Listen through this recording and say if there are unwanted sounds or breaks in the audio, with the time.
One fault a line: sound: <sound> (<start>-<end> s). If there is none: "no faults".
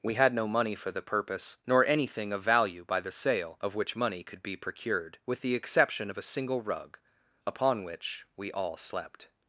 no faults